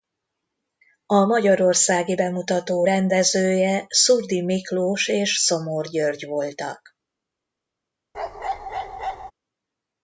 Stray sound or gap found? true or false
true